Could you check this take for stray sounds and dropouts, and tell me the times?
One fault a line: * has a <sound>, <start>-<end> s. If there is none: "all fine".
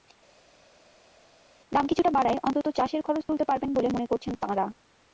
all fine